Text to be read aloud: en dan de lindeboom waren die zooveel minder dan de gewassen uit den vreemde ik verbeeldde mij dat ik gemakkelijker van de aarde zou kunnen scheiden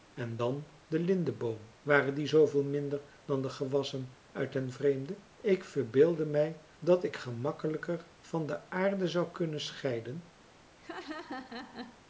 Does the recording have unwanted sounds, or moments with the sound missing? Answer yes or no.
yes